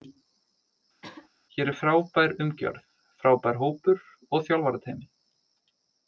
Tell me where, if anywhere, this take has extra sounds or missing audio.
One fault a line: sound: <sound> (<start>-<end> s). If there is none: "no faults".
sound: throat clearing (1.0-1.3 s)